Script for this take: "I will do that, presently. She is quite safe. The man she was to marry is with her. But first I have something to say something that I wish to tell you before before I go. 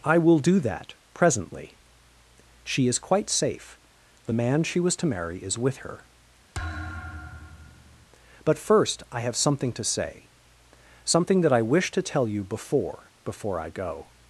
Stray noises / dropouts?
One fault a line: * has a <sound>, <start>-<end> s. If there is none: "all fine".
* has a thud, 6.5-8.1 s